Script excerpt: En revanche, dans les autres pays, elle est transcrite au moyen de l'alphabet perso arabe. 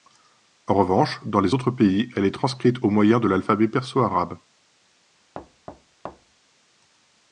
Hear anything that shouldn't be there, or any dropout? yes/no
yes